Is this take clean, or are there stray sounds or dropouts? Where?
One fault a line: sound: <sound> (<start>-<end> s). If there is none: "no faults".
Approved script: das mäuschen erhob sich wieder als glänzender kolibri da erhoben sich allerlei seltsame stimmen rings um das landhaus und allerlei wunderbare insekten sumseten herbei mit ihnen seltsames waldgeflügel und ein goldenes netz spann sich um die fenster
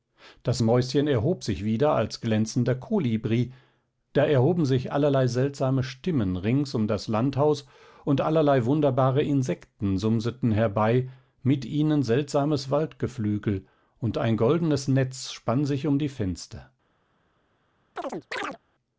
sound: chirp (18.0-18.6 s)